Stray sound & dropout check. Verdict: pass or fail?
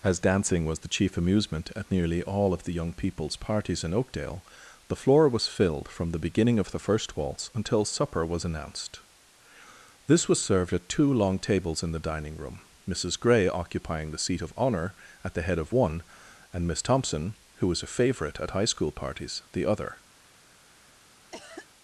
fail